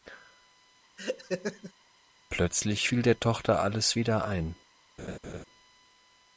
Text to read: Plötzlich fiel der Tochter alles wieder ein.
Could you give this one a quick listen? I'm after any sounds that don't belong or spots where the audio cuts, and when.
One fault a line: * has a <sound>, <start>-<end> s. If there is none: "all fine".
* has a laugh, 1.0-1.7 s
* has a laugh, 5.0-5.4 s